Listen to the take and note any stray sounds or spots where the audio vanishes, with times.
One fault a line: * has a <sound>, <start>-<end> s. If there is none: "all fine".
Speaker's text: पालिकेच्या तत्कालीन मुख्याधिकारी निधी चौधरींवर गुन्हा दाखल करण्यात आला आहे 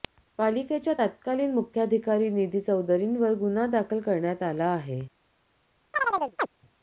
* has a chirp, 5.9-6.5 s